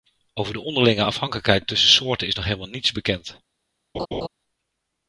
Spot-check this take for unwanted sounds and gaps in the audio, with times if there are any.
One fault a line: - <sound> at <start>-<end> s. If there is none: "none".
- laugh at 3.9-4.3 s